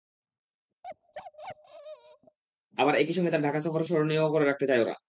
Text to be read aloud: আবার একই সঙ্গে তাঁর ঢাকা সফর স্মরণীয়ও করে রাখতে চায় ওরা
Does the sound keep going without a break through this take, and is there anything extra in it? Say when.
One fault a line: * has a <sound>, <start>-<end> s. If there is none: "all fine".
* has a bark, 0.8-2.4 s